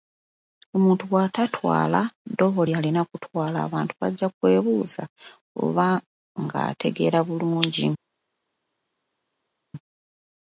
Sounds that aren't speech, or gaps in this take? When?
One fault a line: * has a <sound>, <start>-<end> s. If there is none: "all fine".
all fine